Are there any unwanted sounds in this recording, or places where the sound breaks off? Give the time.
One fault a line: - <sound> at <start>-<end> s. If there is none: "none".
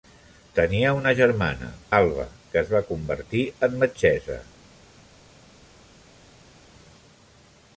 none